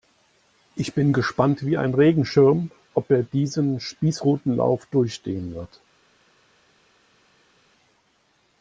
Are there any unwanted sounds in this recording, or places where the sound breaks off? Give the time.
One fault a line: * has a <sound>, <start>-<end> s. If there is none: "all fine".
all fine